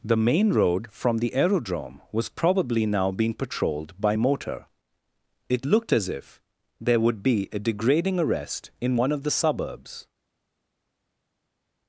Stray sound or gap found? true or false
false